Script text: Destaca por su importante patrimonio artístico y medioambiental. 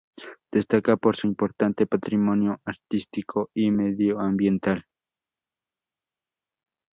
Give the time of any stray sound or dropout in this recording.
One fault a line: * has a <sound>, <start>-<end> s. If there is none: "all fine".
all fine